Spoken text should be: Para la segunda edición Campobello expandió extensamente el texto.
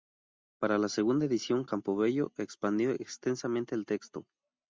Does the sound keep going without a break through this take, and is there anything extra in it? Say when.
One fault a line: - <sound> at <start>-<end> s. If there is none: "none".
none